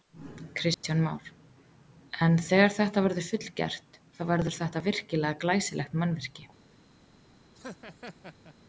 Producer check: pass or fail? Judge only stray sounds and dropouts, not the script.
fail